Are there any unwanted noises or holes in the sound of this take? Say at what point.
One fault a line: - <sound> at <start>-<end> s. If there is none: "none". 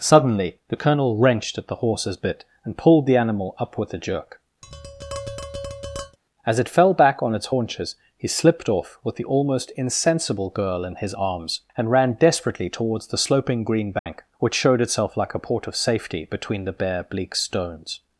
- tap at 4.6-6.2 s
- dropout at 14.0-14.1 s